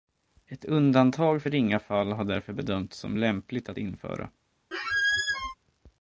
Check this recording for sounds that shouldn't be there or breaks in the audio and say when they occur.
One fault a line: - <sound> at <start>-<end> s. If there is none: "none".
- squeak at 4.7-5.5 s